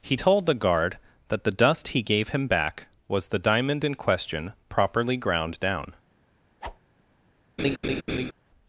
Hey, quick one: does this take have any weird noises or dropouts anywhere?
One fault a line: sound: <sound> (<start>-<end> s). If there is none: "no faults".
sound: whoosh (6.6-6.8 s)
sound: laugh (7.6-8.3 s)